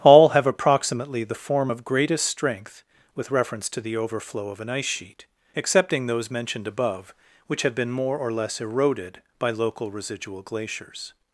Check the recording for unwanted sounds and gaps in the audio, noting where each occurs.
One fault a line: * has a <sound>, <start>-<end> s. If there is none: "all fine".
all fine